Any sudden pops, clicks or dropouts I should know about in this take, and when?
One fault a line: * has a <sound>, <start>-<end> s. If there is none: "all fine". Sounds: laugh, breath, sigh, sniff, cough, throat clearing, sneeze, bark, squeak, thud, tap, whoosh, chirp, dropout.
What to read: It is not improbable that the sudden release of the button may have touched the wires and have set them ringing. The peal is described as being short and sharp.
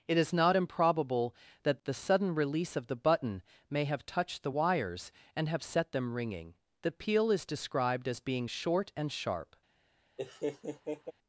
* has a laugh, 10.2-11.1 s